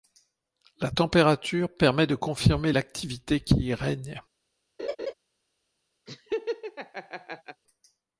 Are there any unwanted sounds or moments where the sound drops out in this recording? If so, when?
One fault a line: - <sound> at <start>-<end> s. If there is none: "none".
- laugh at 4.8-5.1 s
- laugh at 6.1-7.6 s